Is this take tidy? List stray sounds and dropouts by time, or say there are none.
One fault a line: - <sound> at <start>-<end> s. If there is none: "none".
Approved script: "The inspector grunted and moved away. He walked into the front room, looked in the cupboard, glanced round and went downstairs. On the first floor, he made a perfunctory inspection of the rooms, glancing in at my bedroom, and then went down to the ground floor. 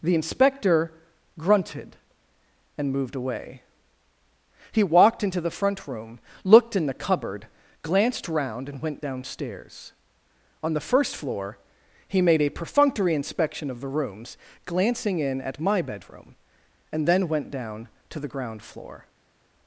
none